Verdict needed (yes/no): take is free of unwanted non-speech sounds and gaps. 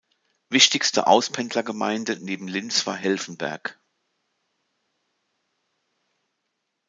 yes